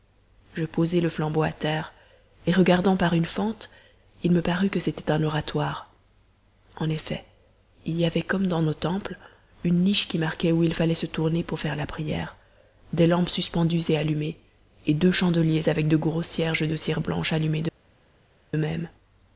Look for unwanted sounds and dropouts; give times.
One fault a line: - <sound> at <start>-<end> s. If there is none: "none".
none